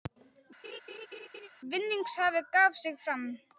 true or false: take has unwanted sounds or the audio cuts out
true